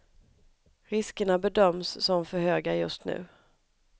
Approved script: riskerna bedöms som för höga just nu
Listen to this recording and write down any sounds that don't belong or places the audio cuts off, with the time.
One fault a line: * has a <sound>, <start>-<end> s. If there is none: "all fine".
all fine